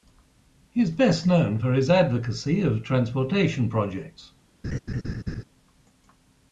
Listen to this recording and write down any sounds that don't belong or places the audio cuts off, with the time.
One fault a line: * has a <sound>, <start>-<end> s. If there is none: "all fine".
* has a laugh, 4.6-5.4 s